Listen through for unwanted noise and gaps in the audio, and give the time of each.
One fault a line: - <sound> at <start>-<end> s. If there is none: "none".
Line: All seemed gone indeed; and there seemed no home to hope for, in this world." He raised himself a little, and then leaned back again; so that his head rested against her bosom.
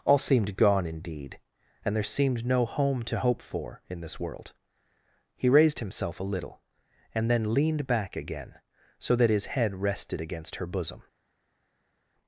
none